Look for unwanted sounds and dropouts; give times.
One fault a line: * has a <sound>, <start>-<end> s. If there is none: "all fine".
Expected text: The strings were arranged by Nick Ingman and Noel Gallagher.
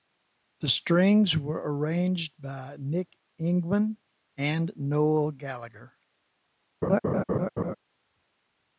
* has a laugh, 6.8-7.7 s